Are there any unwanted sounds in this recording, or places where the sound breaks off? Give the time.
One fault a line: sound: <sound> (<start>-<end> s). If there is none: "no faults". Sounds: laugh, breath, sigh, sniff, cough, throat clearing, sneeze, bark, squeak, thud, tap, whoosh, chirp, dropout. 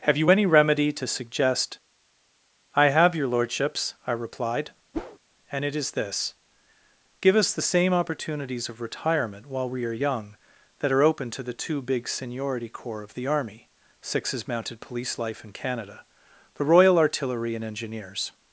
sound: whoosh (4.9-5.2 s)